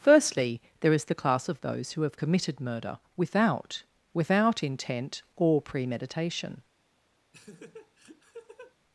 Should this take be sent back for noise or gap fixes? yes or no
yes